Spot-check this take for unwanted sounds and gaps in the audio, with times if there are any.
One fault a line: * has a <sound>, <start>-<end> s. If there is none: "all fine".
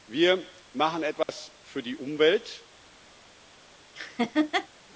* has a dropout, 1.2-1.3 s
* has a laugh, 3.9-4.7 s